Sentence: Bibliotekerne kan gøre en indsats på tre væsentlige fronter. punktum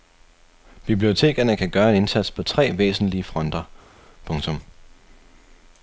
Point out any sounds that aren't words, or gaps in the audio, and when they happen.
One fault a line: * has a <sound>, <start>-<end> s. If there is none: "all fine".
all fine